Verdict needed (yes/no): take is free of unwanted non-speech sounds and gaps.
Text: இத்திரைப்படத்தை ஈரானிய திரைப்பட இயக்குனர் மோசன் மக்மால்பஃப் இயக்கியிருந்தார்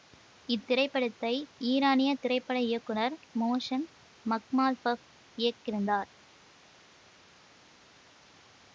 yes